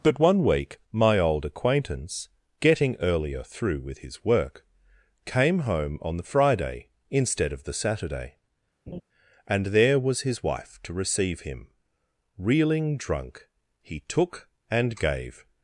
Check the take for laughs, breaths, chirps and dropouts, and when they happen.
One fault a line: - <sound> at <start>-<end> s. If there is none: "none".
- laugh at 8.9-9.0 s